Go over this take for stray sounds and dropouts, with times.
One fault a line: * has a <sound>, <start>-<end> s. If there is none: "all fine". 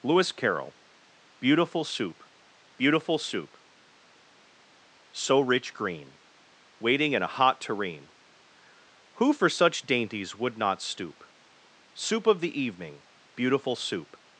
all fine